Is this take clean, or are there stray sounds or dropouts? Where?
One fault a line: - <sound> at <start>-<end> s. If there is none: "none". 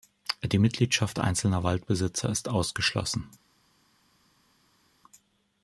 none